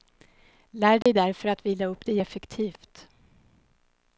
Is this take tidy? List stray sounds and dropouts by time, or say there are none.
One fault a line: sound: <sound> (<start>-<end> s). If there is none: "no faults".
sound: dropout (1.0-1.1 s)